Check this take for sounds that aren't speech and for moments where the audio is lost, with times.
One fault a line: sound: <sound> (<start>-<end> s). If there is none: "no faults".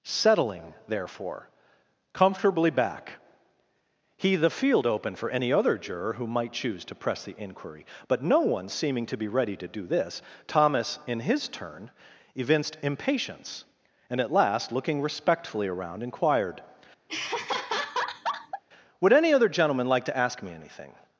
sound: laugh (17.1-18.6 s)